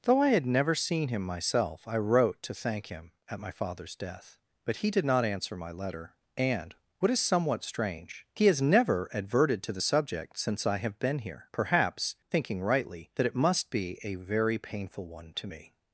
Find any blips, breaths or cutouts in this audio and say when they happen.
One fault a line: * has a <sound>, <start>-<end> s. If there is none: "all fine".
all fine